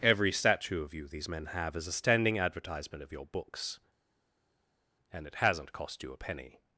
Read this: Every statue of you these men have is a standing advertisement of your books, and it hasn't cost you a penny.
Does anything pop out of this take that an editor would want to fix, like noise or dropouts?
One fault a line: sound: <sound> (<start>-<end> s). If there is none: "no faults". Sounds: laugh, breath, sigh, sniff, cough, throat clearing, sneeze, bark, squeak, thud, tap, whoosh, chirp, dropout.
no faults